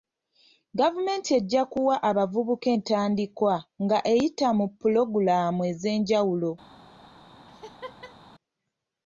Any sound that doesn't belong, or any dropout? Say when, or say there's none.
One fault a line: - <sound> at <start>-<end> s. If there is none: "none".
- laugh at 7.5-8.2 s